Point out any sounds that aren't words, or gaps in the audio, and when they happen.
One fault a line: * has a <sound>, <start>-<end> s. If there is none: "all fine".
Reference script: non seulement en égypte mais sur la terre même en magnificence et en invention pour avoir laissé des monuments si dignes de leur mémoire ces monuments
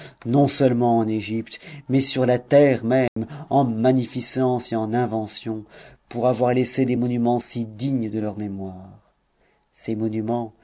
* has a dropout, 3.1-3.2 s